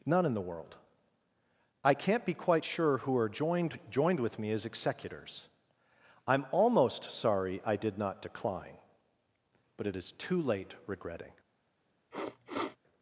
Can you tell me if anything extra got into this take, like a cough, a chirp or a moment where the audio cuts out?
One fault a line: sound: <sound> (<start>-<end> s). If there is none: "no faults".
sound: sniff (12.1-12.8 s)